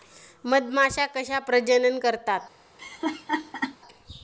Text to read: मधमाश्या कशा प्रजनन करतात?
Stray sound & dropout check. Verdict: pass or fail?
fail